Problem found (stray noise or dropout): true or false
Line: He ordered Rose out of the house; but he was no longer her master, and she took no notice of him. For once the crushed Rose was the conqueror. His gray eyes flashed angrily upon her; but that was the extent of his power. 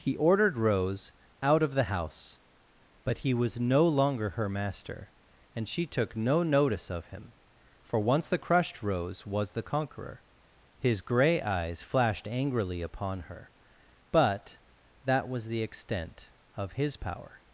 false